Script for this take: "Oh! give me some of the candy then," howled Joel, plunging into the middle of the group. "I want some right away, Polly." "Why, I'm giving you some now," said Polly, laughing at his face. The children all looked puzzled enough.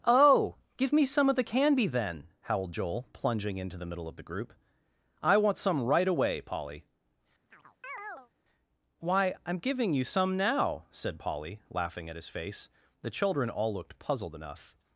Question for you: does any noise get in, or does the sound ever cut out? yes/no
yes